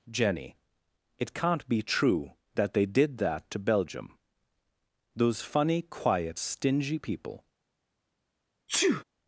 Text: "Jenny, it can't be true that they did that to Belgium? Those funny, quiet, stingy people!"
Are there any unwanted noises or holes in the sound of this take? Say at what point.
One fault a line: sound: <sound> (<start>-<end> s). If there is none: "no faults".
sound: sneeze (8.7-9.0 s)